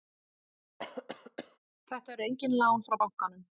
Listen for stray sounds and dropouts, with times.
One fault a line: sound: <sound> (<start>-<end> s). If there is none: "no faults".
sound: cough (0.8-1.6 s)